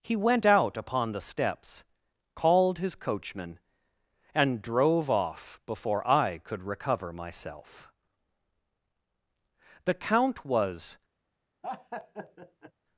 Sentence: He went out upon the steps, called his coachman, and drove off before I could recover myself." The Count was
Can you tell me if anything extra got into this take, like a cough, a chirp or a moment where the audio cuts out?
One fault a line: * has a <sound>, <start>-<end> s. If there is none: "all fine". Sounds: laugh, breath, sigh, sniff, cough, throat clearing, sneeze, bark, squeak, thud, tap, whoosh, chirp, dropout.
* has a laugh, 11.6-12.7 s